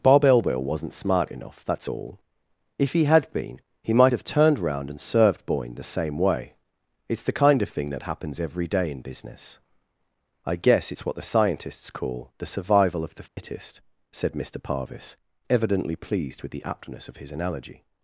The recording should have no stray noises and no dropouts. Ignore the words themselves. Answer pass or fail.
fail